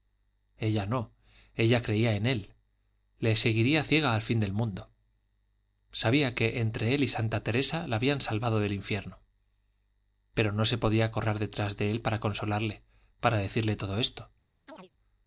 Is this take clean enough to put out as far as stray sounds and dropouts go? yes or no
no